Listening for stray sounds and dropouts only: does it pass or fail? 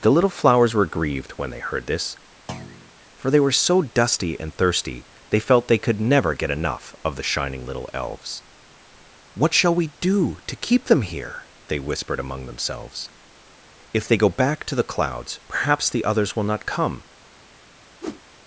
fail